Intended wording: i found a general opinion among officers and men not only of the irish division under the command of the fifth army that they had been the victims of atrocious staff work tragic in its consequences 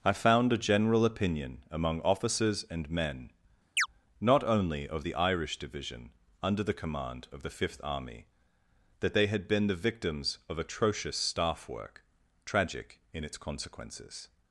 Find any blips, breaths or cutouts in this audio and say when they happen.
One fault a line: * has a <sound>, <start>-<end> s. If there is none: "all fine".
* has a chirp, 3.8-3.9 s